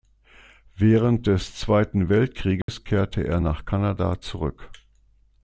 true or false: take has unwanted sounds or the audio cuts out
true